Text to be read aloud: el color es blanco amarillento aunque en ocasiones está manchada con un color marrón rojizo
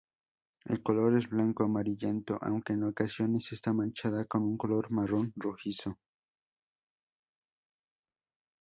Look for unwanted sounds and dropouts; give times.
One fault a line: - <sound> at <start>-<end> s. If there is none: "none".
none